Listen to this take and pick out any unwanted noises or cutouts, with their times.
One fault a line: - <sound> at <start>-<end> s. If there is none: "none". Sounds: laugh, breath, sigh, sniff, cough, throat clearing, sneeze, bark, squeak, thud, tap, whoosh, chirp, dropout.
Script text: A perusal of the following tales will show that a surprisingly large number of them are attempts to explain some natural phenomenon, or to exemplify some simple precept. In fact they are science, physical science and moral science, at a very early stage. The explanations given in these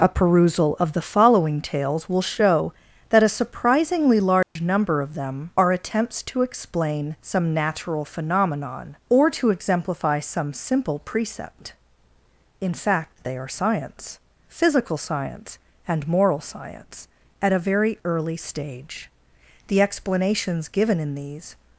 - dropout at 4.4-4.6 s